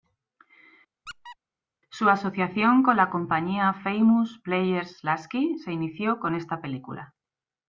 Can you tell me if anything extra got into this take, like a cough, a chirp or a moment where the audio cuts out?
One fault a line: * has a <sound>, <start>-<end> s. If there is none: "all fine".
* has a squeak, 1.1-1.4 s